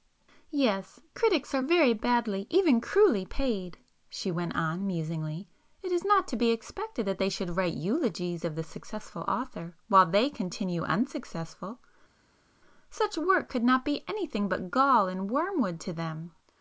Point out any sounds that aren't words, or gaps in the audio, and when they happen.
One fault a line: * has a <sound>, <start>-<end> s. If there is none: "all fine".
all fine